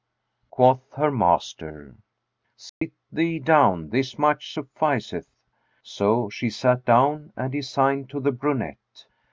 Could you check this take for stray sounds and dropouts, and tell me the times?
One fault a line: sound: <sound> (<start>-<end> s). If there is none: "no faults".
sound: dropout (2.7-2.8 s)